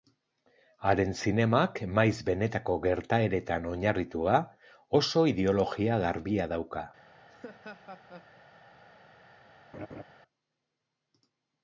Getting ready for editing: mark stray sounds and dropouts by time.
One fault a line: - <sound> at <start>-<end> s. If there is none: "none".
- laugh at 7.3-8.3 s
- laugh at 9.7-10.0 s